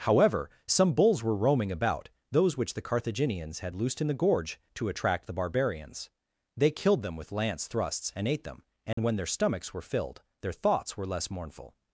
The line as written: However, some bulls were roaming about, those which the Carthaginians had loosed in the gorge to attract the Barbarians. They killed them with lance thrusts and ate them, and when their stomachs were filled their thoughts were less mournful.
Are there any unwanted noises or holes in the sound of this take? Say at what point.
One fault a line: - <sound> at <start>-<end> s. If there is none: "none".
- dropout at 8.9-9.0 s